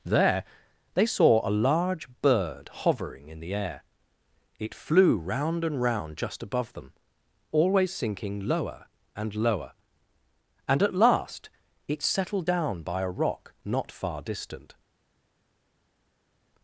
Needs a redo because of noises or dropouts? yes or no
no